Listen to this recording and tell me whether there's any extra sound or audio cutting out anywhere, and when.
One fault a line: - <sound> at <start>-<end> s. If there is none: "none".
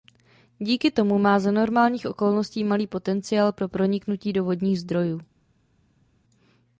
none